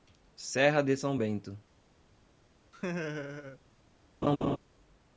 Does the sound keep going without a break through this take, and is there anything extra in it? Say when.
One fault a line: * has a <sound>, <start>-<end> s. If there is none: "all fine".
* has a laugh, 2.7-3.6 s
* has a laugh, 4.2-4.6 s